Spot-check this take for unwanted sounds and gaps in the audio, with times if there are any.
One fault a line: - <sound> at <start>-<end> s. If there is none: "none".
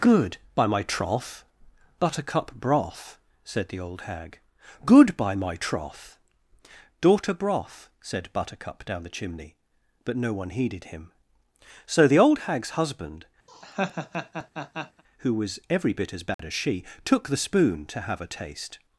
- laugh at 13.5-15.0 s
- dropout at 16.3-16.4 s